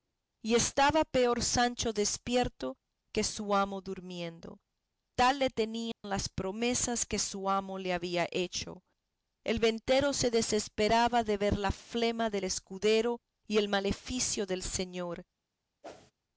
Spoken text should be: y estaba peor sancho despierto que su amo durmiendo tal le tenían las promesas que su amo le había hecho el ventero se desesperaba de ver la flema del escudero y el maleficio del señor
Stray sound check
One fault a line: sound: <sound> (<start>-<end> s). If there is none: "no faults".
sound: dropout (5.9-6.0 s)
sound: whoosh (15.8-16.1 s)